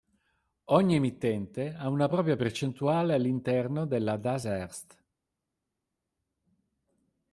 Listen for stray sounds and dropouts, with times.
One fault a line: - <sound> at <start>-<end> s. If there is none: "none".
none